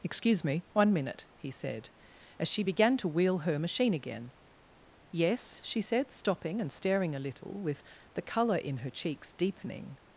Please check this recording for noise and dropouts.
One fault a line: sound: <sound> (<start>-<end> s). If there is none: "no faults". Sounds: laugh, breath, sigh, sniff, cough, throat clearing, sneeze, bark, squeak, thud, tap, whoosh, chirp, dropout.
no faults